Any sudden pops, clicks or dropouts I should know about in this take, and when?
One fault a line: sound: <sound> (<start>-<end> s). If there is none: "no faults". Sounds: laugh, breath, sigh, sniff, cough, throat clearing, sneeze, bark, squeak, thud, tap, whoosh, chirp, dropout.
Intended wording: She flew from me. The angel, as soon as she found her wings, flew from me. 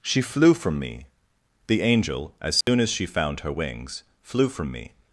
sound: dropout (2.6-2.7 s)